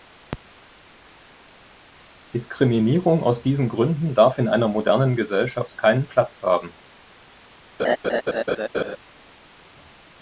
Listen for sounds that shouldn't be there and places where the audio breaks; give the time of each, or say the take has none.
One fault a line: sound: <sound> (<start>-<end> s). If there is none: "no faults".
sound: laugh (7.8-9.0 s)